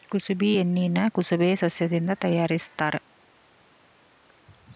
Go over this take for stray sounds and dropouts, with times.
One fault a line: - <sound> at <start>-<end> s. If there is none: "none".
none